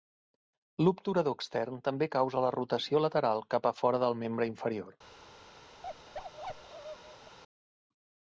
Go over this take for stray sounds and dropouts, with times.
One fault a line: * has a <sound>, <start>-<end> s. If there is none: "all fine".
* has a bark, 5.8-7.4 s